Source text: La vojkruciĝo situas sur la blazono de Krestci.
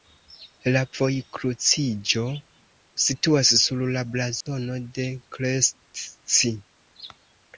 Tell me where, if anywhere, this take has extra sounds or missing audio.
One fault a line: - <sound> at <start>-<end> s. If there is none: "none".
- dropout at 4.4-4.5 s